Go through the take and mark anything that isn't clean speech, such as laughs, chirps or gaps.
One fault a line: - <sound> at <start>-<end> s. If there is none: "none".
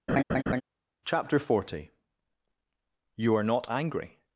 - laugh at 0.1-0.6 s